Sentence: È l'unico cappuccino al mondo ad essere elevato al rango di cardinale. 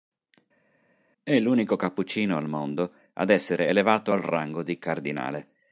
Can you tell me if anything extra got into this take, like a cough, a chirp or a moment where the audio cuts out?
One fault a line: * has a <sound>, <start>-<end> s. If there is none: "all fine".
all fine